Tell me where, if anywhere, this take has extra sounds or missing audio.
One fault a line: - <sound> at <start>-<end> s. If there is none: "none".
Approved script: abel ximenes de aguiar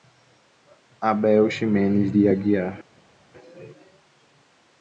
none